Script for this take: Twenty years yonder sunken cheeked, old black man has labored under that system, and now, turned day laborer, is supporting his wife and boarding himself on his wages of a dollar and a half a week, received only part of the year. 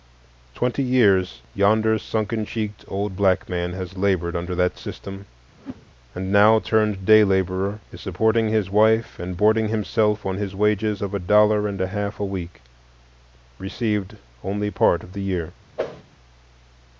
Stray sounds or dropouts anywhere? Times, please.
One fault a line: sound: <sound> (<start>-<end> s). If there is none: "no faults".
sound: whoosh (5.6-5.9 s)
sound: whoosh (15.8-16.0 s)